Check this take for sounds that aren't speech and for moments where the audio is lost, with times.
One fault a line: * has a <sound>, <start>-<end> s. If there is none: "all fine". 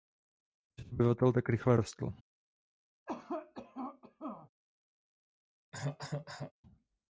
* has a cough, 3.1-4.5 s
* has a cough, 5.7-6.5 s